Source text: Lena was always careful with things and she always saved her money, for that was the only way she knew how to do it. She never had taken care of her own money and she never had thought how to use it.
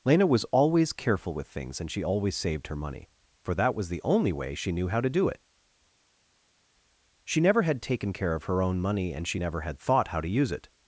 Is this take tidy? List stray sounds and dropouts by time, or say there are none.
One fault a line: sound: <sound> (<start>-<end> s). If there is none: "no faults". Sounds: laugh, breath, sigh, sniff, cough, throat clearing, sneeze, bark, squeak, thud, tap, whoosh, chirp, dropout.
no faults